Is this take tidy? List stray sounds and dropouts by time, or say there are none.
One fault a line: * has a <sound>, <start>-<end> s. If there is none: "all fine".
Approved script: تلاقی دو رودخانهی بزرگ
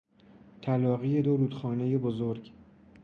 all fine